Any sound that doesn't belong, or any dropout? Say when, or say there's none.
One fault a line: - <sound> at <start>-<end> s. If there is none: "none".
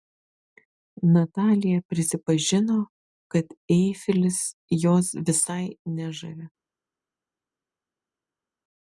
none